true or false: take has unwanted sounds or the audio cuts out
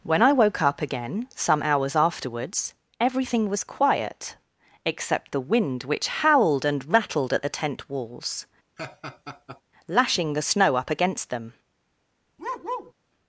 true